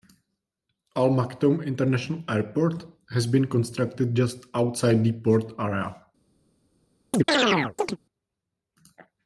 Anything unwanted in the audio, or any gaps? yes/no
yes